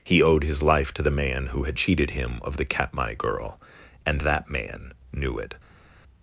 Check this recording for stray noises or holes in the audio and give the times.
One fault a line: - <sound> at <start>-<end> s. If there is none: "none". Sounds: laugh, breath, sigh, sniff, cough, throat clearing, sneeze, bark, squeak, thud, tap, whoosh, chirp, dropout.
none